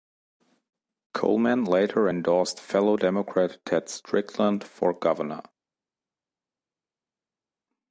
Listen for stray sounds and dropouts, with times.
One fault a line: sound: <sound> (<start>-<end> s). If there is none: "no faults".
no faults